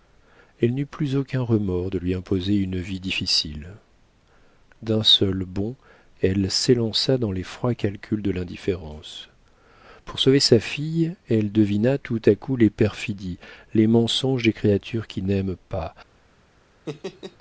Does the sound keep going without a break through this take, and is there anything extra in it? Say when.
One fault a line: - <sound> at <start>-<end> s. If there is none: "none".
- laugh at 16.9-17.4 s